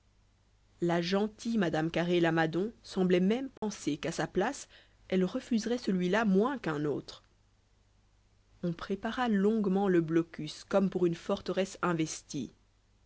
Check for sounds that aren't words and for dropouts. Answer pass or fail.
fail